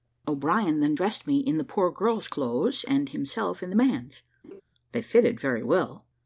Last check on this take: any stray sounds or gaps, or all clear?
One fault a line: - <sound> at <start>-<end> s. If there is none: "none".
- laugh at 4.4-4.6 s